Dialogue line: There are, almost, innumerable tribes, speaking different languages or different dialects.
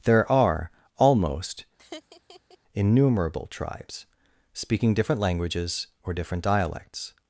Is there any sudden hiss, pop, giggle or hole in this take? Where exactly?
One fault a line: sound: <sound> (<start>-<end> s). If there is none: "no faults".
sound: laugh (1.8-2.6 s)